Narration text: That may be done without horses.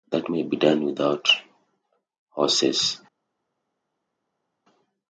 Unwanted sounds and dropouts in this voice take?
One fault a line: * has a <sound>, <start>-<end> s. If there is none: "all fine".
all fine